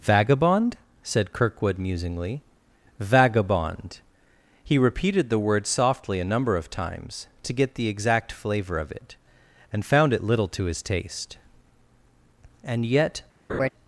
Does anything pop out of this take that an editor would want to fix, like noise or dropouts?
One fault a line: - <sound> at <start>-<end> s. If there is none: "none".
- laugh at 13.5-13.7 s